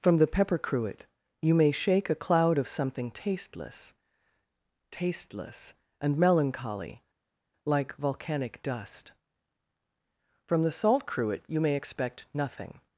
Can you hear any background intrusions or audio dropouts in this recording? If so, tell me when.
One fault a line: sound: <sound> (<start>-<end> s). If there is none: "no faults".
no faults